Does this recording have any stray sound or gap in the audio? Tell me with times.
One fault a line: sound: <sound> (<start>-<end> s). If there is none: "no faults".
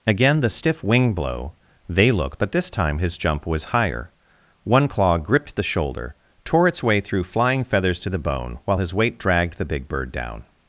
no faults